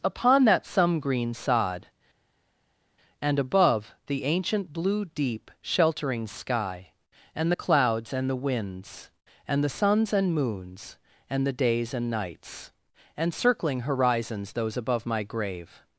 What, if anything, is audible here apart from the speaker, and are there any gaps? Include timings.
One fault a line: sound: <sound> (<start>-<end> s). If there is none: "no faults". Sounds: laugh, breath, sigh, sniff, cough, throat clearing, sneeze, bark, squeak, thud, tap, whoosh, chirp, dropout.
no faults